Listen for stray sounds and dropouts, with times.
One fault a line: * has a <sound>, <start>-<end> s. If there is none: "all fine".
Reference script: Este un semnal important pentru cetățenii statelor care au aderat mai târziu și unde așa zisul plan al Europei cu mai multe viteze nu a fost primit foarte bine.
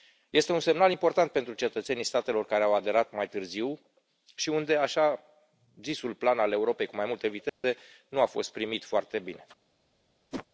* has a dropout, 7.5-7.6 s
* has a whoosh, 10.3-10.5 s